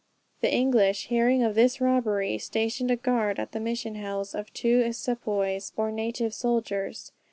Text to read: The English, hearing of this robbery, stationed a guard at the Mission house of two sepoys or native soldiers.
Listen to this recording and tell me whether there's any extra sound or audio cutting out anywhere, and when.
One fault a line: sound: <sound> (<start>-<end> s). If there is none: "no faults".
no faults